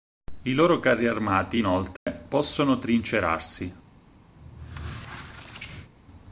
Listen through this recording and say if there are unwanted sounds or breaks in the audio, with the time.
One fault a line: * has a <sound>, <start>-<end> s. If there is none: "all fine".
* has a dropout, 2.0-2.1 s
* has a squeak, 4.4-5.9 s